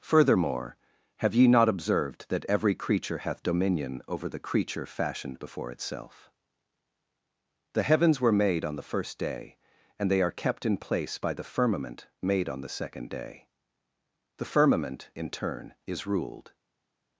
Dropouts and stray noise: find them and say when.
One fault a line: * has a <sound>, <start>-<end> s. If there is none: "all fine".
all fine